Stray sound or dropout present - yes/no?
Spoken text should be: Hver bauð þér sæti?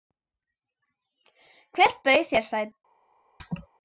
yes